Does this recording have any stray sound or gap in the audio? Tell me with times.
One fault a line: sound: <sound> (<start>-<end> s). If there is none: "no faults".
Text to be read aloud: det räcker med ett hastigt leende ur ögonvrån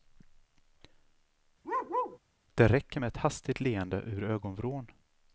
sound: bark (1.6-2.2 s)